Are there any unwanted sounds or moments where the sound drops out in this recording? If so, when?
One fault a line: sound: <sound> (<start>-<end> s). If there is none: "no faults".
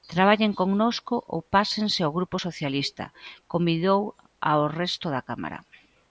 no faults